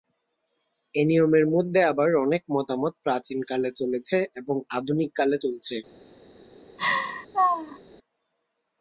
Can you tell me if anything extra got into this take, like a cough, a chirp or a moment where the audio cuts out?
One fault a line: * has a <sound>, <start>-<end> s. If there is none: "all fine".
* has a laugh, 6.8-7.8 s